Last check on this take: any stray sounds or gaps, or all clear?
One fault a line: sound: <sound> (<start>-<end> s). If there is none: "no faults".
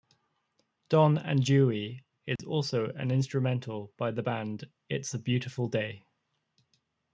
sound: dropout (2.4-2.4 s)